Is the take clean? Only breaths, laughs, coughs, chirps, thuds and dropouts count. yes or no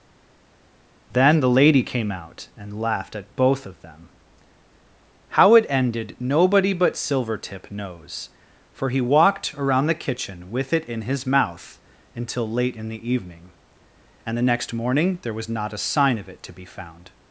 yes